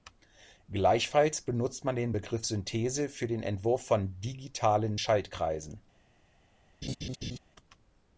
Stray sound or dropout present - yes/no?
yes